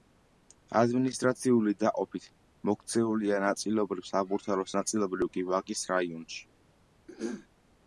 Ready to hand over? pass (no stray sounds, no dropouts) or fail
fail